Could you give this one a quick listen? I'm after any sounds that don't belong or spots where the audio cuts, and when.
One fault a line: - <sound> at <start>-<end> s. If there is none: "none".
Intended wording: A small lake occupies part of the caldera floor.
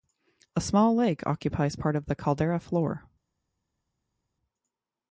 none